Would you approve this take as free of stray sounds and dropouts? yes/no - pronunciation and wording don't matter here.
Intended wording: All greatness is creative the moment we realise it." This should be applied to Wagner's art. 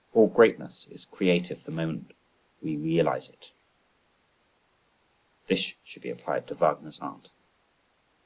yes